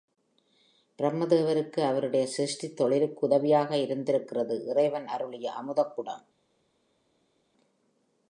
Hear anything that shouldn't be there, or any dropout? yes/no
no